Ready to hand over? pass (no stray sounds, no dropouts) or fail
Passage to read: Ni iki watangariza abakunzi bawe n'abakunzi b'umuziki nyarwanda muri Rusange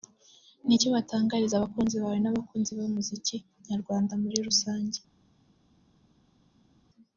pass